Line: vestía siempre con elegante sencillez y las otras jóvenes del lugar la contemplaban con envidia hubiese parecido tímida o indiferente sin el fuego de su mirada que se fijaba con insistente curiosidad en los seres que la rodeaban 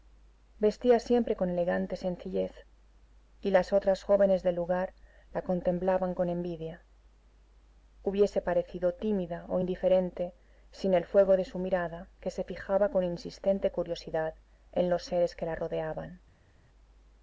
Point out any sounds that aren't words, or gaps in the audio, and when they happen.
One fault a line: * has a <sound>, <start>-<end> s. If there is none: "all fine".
all fine